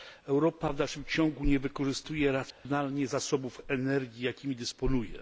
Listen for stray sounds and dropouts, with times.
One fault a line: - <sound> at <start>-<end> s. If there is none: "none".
- dropout at 2.5-2.6 s